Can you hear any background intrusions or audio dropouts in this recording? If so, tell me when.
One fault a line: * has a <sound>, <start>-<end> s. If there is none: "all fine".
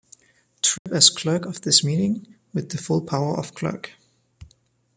* has a dropout, 0.8-0.9 s